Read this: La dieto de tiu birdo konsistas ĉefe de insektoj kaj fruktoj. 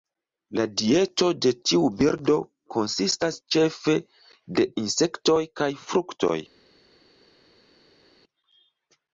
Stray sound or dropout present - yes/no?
no